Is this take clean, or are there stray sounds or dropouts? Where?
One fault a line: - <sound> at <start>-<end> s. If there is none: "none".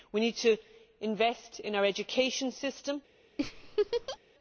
- laugh at 3.4-4.2 s